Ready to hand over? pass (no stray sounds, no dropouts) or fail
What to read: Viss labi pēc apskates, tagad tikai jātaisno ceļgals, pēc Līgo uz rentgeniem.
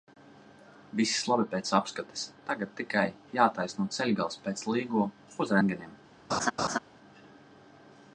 fail